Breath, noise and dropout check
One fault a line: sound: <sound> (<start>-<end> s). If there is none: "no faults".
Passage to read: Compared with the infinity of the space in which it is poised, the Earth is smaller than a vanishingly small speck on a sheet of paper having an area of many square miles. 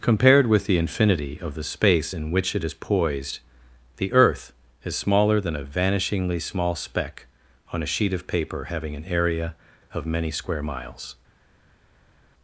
no faults